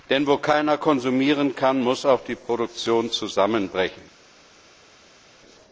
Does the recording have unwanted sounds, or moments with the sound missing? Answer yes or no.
no